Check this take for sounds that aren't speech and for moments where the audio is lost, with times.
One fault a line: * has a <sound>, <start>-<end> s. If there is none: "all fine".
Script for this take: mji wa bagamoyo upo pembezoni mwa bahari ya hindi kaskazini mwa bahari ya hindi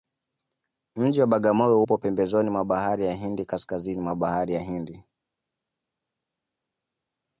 all fine